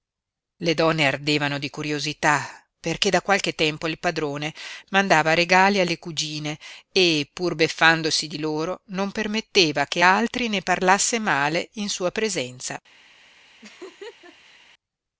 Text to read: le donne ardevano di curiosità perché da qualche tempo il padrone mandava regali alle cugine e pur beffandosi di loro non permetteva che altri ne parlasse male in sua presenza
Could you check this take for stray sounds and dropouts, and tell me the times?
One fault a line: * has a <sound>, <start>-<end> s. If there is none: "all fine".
* has a laugh, 13.6-14.6 s